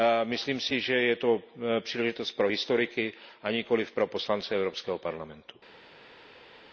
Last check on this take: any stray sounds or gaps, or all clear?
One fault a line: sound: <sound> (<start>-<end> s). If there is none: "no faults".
no faults